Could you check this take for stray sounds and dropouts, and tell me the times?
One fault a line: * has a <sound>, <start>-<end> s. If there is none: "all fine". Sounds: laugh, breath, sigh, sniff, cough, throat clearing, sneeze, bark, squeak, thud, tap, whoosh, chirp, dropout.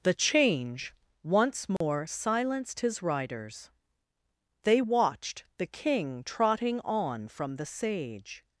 * has a dropout, 1.8-1.8 s